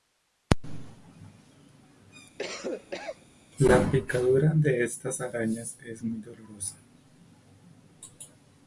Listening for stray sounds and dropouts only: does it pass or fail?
fail